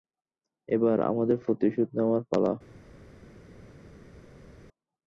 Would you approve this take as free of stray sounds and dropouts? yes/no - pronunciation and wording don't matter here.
yes